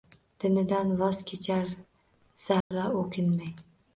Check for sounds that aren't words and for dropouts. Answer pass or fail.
fail